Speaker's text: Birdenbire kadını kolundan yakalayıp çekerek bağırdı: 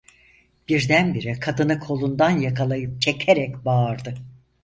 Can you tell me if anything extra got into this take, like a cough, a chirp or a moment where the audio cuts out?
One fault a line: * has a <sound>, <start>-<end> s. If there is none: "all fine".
all fine